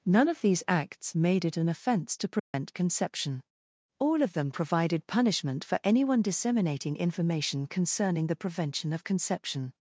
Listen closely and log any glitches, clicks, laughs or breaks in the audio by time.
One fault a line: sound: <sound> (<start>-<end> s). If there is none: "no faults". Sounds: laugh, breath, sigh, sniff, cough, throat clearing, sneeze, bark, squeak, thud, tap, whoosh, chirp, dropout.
sound: dropout (2.4-2.5 s)